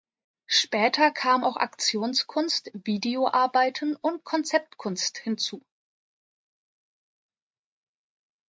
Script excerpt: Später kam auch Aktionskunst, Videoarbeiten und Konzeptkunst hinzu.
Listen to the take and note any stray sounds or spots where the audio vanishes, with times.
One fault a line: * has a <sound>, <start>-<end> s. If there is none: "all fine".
all fine